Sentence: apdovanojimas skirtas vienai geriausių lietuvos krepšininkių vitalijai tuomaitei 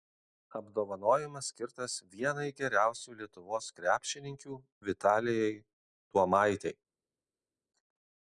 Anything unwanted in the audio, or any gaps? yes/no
no